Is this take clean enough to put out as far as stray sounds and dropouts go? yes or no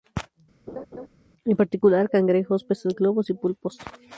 no